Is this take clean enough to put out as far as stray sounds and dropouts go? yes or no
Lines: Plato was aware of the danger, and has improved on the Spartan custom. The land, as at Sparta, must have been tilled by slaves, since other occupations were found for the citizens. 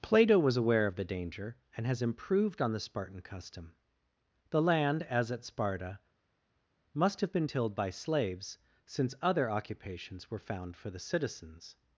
yes